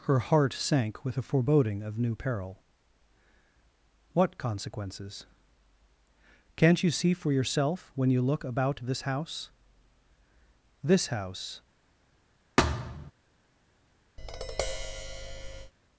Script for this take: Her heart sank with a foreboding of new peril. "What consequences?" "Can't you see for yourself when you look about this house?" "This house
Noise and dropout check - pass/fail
fail